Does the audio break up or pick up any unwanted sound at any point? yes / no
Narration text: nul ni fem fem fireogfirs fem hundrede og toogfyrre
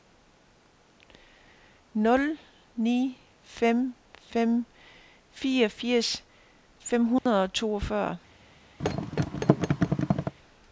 yes